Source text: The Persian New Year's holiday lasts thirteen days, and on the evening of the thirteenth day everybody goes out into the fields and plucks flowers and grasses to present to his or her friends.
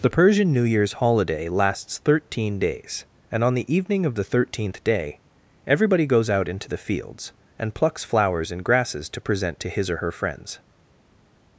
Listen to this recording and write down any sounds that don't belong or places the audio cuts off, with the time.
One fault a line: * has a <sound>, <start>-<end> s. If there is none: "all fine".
all fine